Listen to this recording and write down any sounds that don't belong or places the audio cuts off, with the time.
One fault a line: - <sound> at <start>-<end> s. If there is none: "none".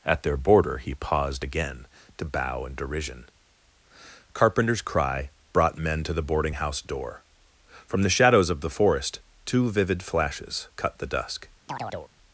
- chirp at 11.7-12.1 s